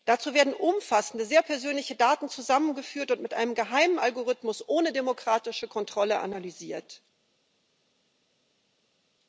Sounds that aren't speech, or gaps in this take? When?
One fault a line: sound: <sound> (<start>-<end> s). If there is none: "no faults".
no faults